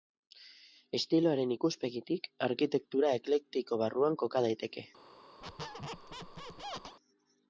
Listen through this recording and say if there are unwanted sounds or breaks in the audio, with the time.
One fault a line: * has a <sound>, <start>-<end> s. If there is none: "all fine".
* has a squeak, 5.4-7.0 s